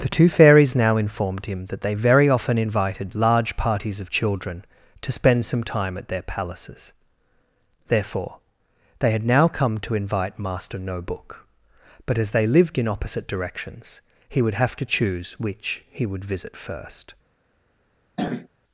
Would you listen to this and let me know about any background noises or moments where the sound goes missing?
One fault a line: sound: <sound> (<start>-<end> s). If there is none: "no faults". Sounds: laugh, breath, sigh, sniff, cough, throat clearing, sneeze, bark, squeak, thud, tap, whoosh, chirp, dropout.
sound: throat clearing (18.2-18.5 s)